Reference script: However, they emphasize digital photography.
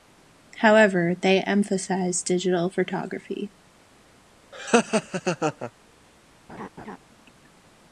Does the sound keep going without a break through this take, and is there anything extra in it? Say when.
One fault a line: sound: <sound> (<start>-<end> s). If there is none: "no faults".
sound: laugh (4.5-5.7 s)
sound: laugh (6.5-7.0 s)